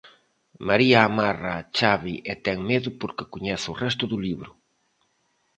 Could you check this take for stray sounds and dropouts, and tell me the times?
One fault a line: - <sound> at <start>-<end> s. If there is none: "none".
none